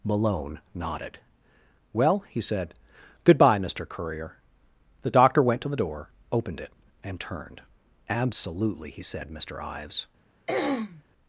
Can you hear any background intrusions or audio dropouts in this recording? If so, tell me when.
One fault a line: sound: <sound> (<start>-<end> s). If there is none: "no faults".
sound: throat clearing (10.5-11.0 s)